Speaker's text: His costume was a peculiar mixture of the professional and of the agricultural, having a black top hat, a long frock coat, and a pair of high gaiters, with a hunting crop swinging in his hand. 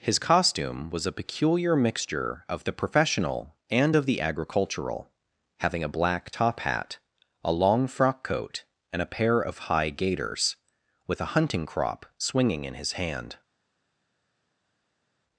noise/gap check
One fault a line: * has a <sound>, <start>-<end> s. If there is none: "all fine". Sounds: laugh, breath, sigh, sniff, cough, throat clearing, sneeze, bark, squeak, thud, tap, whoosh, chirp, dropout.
all fine